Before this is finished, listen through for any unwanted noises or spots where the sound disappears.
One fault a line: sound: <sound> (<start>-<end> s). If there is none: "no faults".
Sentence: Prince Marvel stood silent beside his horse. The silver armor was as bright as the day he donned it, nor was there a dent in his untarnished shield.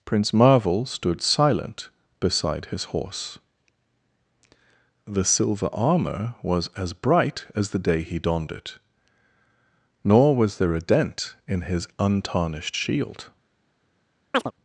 sound: chirp (14.3-14.5 s)